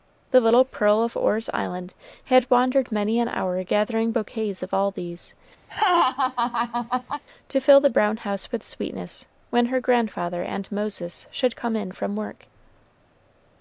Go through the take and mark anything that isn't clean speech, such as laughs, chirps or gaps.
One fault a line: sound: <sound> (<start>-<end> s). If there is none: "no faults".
sound: laugh (5.7-7.2 s)